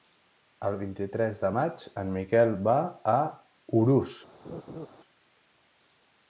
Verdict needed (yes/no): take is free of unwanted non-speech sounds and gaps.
no